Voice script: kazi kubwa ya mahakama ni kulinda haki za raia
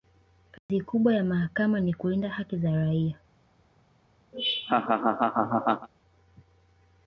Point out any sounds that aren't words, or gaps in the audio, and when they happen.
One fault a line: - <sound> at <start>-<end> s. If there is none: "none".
- dropout at 0.6-0.7 s
- laugh at 4.3-5.9 s